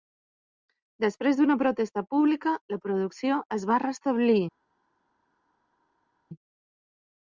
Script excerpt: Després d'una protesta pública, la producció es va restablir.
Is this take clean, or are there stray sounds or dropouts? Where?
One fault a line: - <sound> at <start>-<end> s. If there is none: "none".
none